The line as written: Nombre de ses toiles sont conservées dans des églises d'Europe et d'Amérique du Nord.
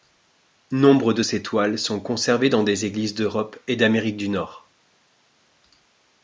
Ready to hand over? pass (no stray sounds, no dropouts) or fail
pass